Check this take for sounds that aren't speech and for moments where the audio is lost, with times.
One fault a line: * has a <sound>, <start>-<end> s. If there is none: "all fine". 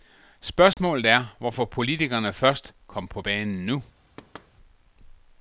* has a dropout, 0.7-0.8 s
* has a thud, 4.2-4.5 s